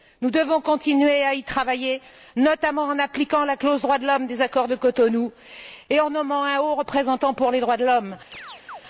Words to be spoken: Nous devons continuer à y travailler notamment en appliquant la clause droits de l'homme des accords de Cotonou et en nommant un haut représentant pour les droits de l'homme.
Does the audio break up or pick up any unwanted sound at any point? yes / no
yes